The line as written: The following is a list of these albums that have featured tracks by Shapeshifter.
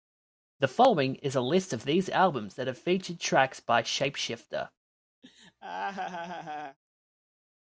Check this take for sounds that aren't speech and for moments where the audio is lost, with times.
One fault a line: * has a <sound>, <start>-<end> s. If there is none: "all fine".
* has a laugh, 5.2-6.8 s